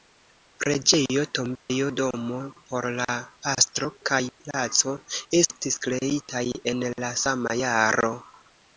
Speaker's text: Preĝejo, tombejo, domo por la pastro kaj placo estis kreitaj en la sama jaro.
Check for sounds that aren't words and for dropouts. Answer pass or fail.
fail